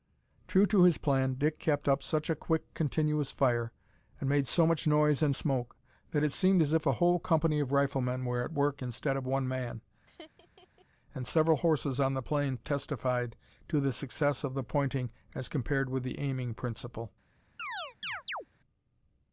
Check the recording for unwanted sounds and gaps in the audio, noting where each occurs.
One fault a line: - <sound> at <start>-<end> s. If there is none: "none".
- laugh at 10.1-10.9 s
- chirp at 17.6-18.5 s